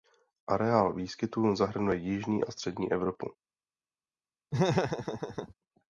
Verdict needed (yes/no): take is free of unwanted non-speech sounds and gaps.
no